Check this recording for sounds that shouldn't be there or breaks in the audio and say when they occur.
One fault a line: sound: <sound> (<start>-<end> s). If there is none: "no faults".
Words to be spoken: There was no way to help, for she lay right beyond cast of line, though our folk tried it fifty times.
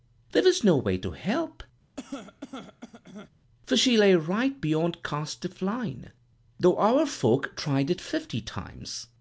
sound: cough (2.0-3.3 s)